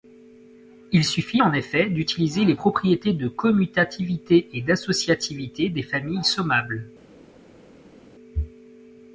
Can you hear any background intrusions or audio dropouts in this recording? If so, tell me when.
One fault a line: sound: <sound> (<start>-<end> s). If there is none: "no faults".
no faults